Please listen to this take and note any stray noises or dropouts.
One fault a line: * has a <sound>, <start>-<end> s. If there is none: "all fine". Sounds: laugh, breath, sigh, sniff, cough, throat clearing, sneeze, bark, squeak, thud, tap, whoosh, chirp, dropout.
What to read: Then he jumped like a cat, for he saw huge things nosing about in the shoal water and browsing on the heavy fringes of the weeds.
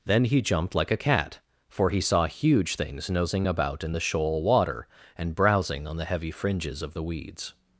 all fine